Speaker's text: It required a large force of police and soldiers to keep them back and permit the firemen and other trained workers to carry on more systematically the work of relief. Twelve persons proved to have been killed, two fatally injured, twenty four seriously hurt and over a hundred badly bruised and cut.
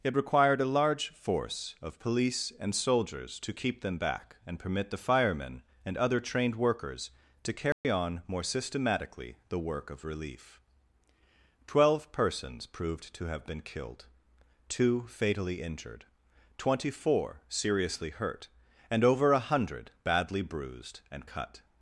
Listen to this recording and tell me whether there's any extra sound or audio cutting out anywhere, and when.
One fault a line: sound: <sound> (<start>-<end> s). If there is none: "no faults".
sound: dropout (7.7-7.8 s)